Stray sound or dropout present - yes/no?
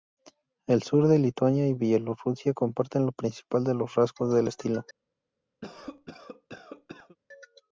yes